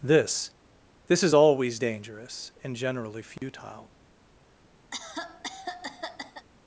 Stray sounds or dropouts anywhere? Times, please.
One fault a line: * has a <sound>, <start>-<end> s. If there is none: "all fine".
* has a dropout, 3.4-3.4 s
* has a cough, 4.9-6.5 s